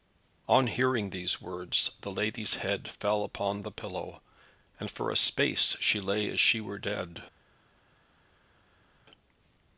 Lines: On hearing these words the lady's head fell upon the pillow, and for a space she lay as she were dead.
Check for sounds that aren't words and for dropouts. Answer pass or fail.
pass